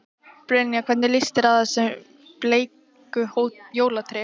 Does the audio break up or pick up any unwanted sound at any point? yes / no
no